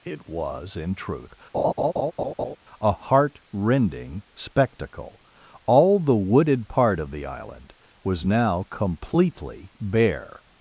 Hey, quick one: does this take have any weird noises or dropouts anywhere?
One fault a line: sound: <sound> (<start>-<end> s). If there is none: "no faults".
sound: laugh (1.5-2.6 s)